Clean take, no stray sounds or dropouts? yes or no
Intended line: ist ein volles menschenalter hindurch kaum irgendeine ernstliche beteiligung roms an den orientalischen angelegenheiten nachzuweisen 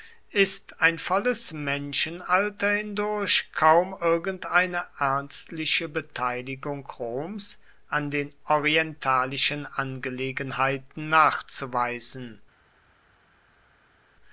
yes